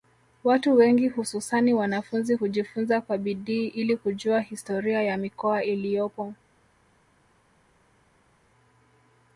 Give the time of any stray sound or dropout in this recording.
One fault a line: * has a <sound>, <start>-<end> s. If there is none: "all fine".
all fine